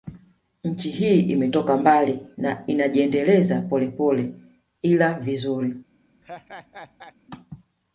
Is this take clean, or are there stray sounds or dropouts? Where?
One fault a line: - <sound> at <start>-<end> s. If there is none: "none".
- laugh at 6.2-7.1 s